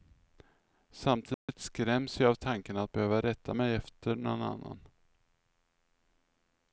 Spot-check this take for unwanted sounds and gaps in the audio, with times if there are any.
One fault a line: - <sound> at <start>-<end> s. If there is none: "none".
- dropout at 1.3-1.5 s